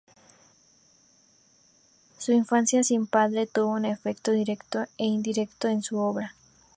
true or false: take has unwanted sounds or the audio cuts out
false